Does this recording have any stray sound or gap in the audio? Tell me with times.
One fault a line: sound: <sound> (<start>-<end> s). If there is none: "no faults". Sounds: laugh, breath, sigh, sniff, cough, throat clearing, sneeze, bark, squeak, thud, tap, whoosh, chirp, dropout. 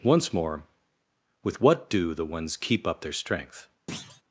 sound: thud (3.9-4.2 s)